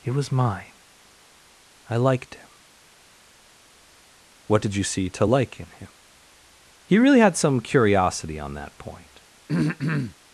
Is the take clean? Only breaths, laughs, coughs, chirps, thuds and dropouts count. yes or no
no